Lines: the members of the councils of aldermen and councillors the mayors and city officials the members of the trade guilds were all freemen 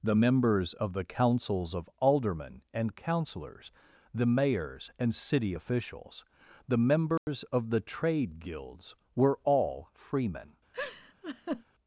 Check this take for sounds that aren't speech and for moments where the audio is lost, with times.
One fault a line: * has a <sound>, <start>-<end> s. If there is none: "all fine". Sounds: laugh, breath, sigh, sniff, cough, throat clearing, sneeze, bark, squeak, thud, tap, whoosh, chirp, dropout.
* has a dropout, 7.2-7.3 s
* has a laugh, 10.7-11.6 s